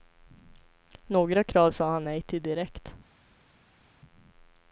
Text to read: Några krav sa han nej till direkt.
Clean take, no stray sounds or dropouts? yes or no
yes